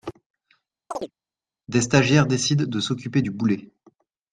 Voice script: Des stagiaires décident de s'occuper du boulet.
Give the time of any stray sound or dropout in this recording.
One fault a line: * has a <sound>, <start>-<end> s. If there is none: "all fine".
* has a chirp, 0.9-1.1 s